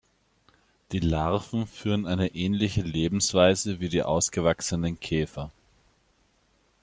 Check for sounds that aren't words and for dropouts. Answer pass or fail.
pass